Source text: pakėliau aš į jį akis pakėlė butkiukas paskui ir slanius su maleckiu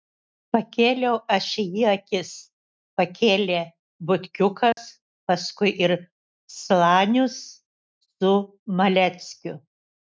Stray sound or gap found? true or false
true